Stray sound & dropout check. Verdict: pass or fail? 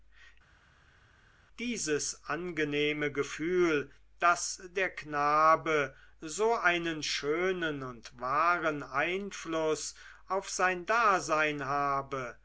pass